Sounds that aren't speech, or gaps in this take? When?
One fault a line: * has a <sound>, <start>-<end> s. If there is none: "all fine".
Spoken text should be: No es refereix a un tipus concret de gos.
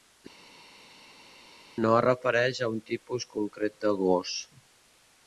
all fine